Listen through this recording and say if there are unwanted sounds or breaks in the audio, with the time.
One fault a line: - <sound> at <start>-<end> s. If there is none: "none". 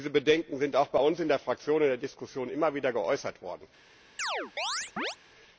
- chirp at 4.2-5.2 s